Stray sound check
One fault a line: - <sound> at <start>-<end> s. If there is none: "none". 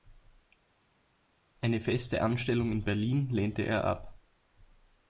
none